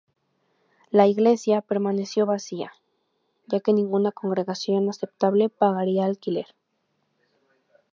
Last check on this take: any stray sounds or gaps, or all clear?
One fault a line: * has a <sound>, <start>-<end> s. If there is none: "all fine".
all fine